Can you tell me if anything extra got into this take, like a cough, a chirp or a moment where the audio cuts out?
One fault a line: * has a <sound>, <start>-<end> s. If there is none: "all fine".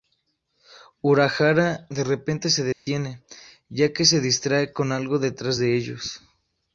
* has a dropout, 2.7-2.9 s